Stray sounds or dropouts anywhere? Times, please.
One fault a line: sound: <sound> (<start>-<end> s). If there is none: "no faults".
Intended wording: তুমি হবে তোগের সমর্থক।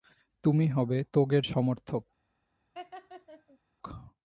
sound: laugh (2.7-3.6 s)